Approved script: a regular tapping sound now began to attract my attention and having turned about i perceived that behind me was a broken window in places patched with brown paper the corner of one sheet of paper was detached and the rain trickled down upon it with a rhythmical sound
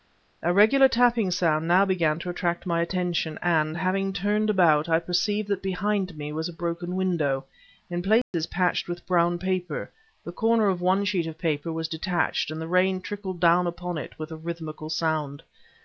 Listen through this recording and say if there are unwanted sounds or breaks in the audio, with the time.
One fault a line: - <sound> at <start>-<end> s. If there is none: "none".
- dropout at 8.2-8.3 s